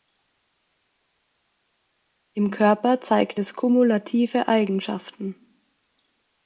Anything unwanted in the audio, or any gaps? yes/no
no